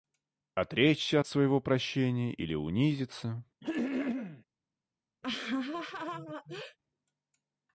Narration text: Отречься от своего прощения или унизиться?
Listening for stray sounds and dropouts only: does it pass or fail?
fail